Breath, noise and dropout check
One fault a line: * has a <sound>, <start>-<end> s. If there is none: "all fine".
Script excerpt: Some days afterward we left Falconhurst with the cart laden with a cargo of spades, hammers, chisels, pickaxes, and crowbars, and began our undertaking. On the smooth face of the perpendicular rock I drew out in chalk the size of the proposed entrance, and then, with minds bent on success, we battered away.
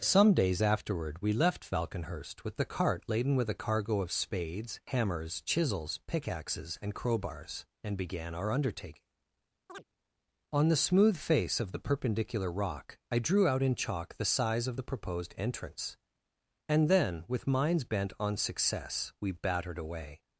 * has a chirp, 9.7-9.8 s